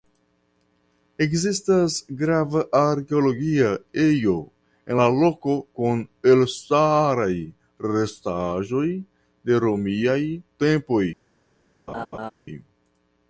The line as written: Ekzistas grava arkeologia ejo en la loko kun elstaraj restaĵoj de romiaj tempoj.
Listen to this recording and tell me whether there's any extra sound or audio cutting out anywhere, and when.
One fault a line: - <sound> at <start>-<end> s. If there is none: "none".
- laugh at 11.9-12.3 s